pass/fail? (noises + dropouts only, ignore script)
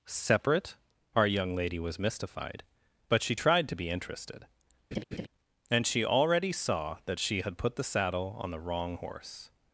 fail